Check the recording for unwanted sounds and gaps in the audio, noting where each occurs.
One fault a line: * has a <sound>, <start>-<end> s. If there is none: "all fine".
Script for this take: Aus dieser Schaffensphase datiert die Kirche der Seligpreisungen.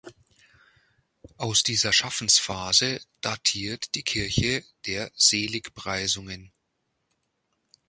all fine